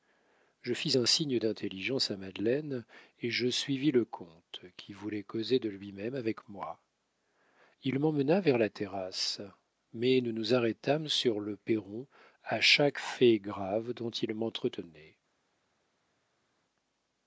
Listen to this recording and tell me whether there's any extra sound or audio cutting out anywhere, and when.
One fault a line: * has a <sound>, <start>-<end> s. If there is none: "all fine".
all fine